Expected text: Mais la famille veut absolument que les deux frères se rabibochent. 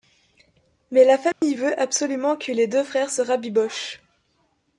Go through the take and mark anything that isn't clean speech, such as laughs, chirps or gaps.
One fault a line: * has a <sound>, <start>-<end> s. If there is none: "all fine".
* has a dropout, 1.3-1.4 s